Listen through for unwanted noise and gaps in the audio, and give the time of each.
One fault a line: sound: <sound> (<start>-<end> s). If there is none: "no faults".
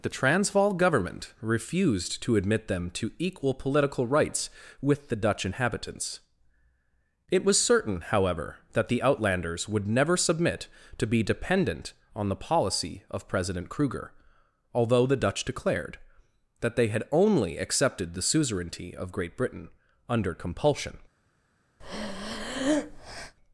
sound: breath (21.8-23.3 s)